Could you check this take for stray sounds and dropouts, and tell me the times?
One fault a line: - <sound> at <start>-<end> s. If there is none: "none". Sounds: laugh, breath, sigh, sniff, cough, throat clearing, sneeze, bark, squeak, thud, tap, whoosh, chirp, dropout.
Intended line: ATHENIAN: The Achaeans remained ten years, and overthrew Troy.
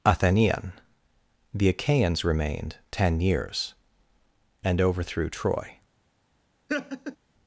- laugh at 6.7-7.2 s